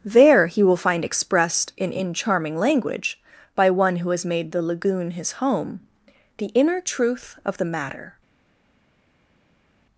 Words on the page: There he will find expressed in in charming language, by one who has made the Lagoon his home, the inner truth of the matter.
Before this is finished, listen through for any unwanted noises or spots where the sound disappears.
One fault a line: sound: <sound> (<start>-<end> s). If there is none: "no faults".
no faults